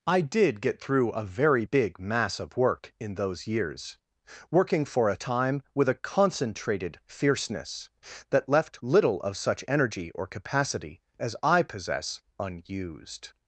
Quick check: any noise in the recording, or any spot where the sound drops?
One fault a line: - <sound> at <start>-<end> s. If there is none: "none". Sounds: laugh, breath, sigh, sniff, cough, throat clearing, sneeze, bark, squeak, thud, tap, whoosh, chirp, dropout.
none